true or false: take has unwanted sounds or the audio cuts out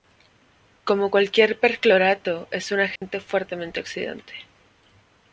true